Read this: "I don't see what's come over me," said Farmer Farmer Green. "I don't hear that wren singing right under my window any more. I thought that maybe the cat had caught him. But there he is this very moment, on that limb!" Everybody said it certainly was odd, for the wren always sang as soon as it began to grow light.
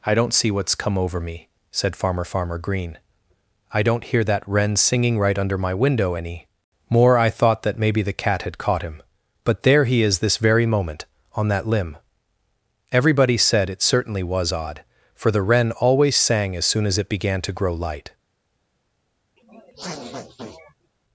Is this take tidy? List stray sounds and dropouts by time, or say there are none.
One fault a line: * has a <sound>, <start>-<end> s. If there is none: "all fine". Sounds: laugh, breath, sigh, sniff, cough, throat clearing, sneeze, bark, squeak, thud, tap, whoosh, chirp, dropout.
* has a sniff, 19.4-20.9 s